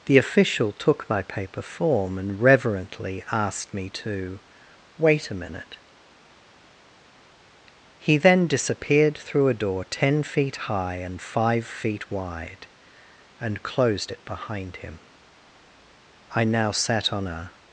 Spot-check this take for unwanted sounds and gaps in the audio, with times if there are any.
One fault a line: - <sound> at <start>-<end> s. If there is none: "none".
none